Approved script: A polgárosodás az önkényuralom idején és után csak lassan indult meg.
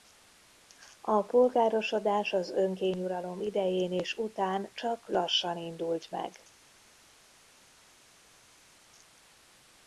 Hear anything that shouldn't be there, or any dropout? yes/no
no